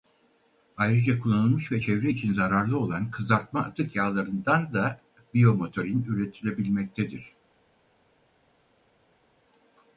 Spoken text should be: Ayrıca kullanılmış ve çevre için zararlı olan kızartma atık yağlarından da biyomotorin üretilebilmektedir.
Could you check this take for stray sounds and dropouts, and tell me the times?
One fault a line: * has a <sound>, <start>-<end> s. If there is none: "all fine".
all fine